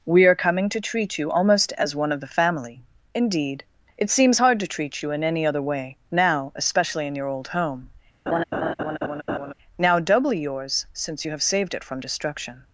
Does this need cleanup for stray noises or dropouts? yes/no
yes